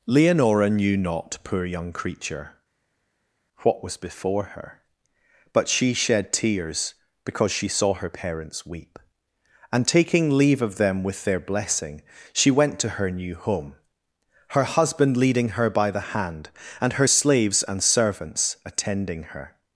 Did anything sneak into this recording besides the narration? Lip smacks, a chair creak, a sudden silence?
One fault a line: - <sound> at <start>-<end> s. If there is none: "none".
none